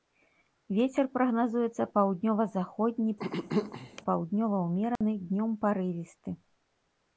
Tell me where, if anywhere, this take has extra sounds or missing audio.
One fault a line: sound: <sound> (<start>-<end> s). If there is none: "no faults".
sound: throat clearing (3.2-4.0 s)
sound: dropout (5.0-5.0 s)